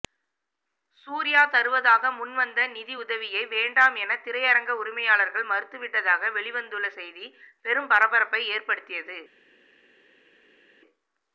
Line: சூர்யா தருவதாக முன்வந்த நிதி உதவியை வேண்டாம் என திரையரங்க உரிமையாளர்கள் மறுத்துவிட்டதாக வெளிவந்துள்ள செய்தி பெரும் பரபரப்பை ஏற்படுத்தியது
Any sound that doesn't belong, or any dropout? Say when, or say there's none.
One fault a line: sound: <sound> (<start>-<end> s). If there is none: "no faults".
no faults